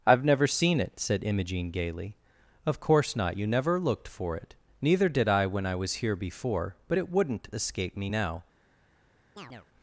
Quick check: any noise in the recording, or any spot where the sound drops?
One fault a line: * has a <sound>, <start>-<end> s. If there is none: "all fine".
* has a chirp, 9.4-9.7 s